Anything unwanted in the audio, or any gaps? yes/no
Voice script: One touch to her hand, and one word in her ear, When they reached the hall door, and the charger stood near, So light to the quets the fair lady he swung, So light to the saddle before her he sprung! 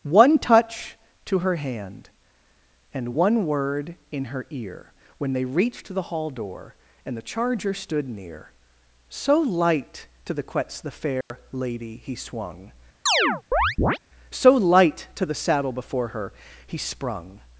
yes